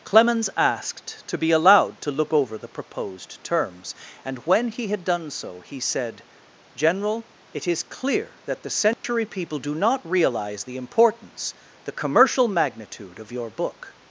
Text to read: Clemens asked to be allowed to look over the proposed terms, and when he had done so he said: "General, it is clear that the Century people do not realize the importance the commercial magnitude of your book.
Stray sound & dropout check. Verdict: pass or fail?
fail